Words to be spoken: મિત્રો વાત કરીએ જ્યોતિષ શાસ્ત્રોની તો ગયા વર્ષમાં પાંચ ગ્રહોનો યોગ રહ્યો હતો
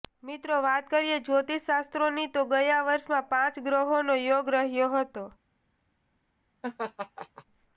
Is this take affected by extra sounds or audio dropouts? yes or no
yes